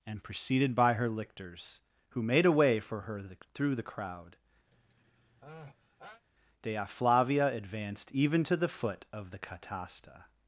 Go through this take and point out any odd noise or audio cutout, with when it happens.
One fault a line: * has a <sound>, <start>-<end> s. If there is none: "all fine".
* has a sneeze, 4.7-6.2 s